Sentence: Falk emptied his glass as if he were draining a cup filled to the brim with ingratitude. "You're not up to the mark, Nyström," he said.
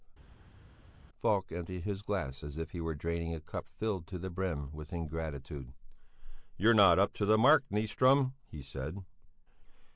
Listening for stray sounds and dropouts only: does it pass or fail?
pass